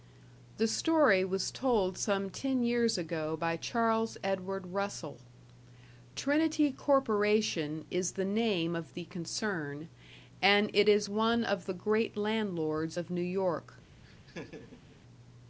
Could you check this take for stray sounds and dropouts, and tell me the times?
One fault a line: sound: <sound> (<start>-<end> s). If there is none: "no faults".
sound: laugh (14.0-15.0 s)